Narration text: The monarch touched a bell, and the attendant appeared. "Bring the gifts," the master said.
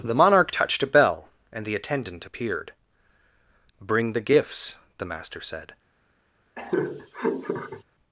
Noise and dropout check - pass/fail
fail